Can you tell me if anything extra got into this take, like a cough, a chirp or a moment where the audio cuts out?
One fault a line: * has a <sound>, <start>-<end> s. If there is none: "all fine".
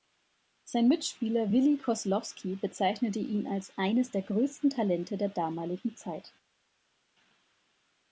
all fine